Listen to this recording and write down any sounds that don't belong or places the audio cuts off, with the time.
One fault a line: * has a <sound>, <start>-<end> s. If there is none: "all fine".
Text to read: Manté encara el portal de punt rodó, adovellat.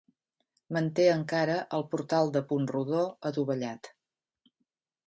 all fine